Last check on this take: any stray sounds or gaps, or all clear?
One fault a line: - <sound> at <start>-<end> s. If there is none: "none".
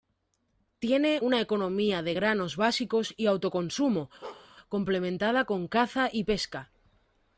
- bark at 4.2-4.5 s